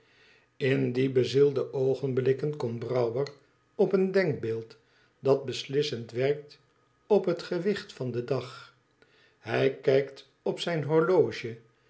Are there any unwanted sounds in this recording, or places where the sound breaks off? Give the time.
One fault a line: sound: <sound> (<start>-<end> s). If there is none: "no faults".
no faults